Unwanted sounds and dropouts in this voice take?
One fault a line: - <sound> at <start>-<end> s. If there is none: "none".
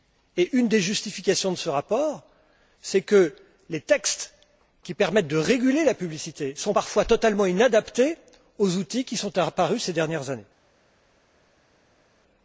none